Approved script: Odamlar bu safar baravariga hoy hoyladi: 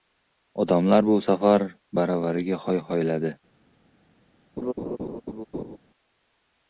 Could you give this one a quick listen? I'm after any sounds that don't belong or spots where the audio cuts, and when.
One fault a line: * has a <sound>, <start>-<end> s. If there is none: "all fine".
* has a laugh, 4.6-5.8 s